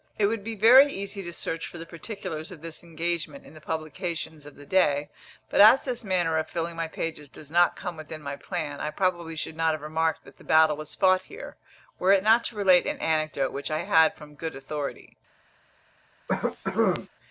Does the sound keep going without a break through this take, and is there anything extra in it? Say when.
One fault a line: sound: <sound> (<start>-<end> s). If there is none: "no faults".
sound: cough (16.3-17.1 s)